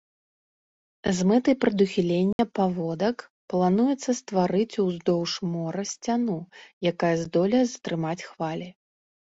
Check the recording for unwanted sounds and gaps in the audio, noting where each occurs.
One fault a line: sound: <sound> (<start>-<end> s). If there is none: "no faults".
sound: dropout (2.3-2.4 s)